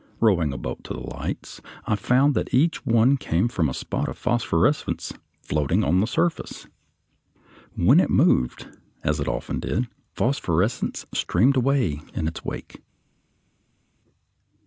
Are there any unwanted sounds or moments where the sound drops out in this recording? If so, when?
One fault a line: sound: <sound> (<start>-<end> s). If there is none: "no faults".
no faults